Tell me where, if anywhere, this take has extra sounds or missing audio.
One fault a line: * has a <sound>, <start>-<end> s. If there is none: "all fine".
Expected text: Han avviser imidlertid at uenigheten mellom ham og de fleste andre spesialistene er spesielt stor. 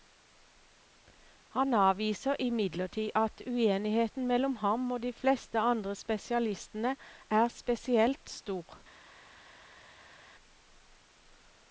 all fine